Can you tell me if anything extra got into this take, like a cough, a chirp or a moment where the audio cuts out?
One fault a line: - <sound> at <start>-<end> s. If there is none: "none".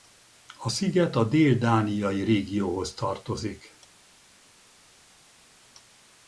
none